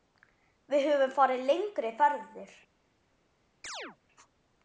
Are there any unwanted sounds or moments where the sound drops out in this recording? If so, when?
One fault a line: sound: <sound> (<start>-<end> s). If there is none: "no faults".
sound: chirp (3.6-4.0 s)